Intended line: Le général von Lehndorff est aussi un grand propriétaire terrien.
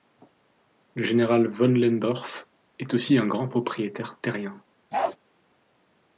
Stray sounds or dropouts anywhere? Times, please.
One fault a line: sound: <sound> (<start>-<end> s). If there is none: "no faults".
sound: bark (4.9-5.2 s)